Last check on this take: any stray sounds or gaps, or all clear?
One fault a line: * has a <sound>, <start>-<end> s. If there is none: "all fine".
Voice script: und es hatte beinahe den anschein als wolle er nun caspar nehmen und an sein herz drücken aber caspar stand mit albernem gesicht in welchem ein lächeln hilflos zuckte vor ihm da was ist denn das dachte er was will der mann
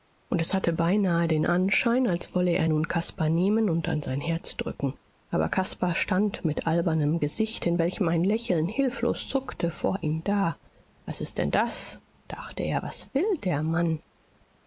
all fine